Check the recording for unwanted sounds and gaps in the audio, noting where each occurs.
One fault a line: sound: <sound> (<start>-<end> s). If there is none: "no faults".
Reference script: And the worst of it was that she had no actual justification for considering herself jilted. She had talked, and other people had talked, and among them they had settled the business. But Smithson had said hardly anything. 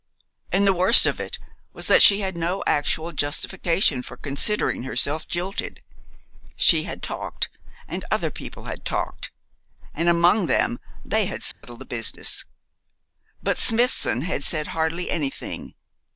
sound: dropout (11.5-11.6 s)